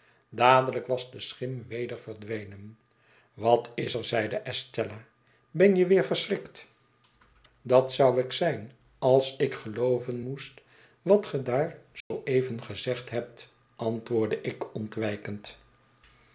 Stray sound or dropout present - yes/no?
yes